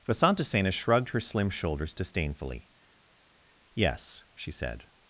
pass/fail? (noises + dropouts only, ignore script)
pass